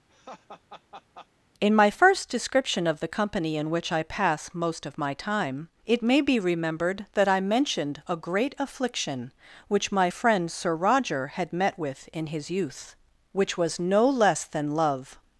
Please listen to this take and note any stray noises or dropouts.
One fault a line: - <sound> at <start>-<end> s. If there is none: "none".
- laugh at 0.1-1.3 s